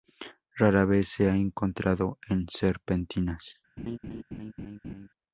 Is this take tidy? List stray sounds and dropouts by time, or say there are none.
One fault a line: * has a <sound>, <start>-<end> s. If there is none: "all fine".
* has a laugh, 3.8-5.1 s